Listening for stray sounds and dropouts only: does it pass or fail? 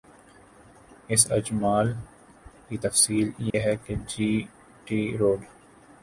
fail